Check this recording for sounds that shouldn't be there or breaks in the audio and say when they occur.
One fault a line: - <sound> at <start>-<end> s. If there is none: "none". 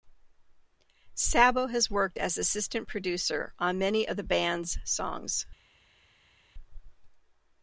none